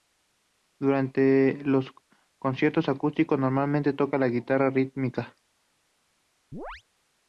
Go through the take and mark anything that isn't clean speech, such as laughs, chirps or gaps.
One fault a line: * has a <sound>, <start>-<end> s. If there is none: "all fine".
* has a chirp, 6.5-6.8 s